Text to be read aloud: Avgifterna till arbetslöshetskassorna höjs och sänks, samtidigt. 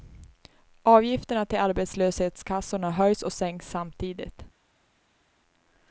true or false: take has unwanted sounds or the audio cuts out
false